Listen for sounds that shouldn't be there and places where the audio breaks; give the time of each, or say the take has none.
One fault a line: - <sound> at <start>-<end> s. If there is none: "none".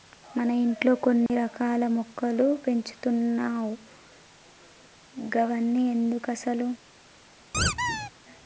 - dropout at 1.3-1.3 s
- squeak at 7.5-8.1 s